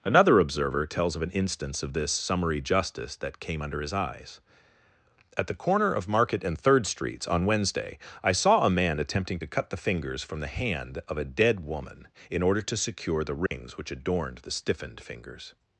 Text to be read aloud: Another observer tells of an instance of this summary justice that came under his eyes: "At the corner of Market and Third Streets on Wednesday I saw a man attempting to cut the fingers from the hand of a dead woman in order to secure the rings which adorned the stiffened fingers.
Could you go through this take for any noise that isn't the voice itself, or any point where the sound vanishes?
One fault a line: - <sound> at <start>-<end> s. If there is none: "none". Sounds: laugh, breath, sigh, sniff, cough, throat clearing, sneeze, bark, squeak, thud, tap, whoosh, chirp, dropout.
- dropout at 13.5-13.5 s